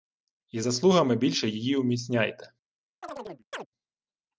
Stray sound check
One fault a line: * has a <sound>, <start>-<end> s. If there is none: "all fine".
* has a chirp, 3.0-3.7 s